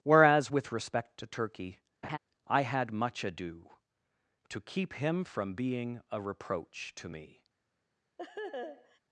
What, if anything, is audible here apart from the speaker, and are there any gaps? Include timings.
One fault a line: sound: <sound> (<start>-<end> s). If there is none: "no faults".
sound: laugh (2.0-2.2 s)
sound: laugh (8.2-9.0 s)